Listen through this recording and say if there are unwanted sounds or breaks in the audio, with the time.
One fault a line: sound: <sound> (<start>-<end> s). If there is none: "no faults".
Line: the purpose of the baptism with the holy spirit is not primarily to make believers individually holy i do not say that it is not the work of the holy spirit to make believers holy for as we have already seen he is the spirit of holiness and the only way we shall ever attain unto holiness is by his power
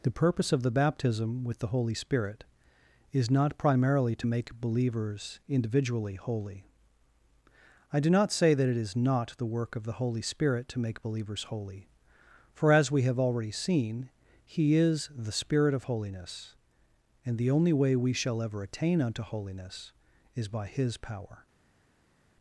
no faults